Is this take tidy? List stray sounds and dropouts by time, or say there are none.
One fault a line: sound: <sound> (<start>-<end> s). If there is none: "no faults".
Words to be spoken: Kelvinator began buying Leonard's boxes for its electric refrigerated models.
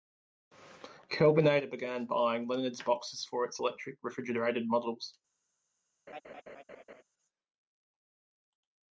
sound: laugh (6.1-7.0 s)